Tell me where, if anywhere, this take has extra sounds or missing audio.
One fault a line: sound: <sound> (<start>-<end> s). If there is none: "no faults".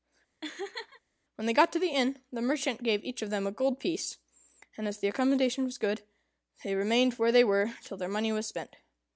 sound: laugh (0.4-1.0 s)